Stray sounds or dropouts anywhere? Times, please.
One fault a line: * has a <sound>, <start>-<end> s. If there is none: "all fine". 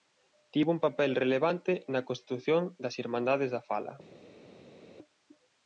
all fine